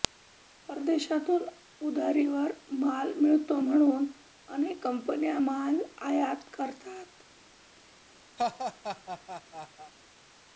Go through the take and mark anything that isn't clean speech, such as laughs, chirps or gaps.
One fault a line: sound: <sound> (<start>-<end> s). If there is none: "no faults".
sound: laugh (8.4-9.9 s)